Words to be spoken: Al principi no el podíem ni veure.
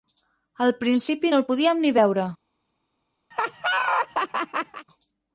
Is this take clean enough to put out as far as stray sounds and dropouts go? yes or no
no